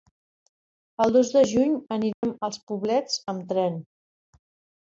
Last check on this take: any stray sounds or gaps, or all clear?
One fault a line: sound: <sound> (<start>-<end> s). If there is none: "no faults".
sound: dropout (2.1-2.2 s)